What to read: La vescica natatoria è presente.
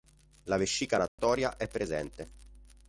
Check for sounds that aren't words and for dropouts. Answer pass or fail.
fail